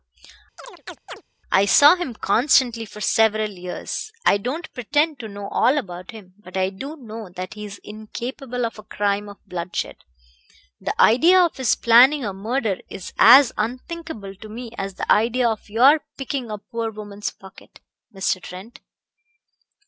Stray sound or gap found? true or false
true